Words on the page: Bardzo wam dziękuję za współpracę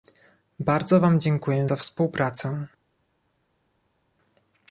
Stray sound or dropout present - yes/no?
no